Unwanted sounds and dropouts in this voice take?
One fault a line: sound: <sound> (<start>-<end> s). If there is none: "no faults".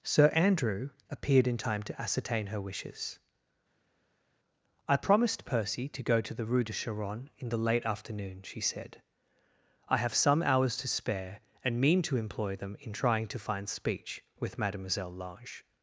no faults